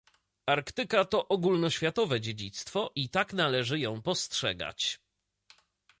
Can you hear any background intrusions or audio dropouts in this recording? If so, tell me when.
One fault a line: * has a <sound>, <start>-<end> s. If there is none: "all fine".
all fine